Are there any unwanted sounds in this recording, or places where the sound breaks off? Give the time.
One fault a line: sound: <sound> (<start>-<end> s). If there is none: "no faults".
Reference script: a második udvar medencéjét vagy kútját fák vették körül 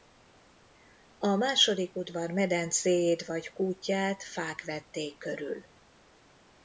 no faults